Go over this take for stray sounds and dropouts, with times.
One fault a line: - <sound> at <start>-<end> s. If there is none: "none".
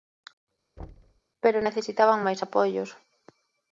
- thud at 0.8-1.2 s